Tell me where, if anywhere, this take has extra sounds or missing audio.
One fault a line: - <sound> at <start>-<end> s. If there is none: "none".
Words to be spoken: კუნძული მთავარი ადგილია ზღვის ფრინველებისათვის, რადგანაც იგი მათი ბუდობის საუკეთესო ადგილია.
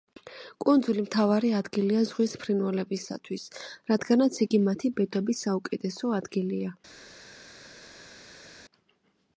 none